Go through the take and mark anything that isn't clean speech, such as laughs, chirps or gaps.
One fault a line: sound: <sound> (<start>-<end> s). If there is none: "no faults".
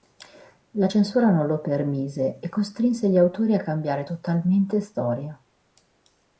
no faults